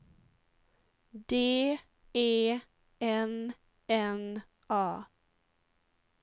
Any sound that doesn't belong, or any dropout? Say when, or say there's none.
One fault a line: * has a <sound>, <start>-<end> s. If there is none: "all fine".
all fine